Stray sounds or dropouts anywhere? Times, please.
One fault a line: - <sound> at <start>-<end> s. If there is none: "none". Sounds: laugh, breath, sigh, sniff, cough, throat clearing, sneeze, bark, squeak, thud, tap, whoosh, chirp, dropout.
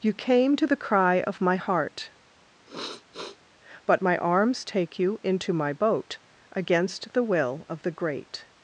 - sniff at 2.7-3.4 s